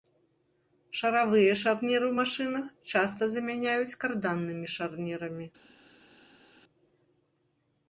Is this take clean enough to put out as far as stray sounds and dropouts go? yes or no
yes